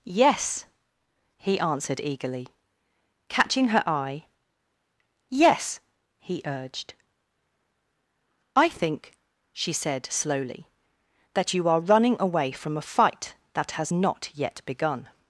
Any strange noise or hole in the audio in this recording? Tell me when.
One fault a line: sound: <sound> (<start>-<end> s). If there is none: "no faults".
no faults